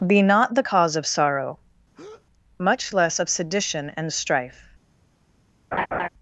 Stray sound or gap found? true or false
true